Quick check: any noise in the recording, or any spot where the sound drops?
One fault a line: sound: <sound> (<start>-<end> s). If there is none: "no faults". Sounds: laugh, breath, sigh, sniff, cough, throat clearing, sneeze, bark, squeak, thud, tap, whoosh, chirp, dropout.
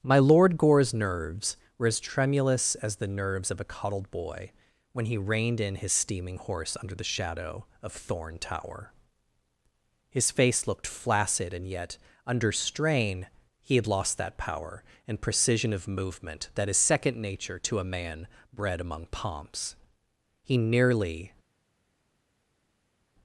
no faults